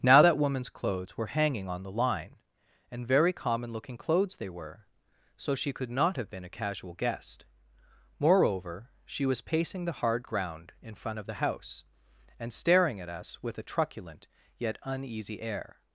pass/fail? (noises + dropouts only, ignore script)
pass